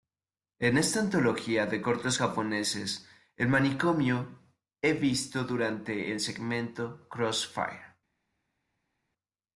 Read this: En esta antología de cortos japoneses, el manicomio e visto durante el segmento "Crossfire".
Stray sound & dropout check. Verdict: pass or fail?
pass